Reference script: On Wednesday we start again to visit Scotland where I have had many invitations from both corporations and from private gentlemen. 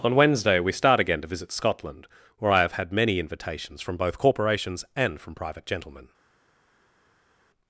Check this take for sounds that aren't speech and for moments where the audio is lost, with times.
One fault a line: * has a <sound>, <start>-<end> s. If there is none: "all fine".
all fine